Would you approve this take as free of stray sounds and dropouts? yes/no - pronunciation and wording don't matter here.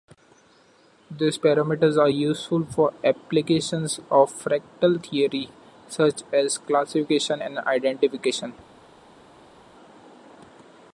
yes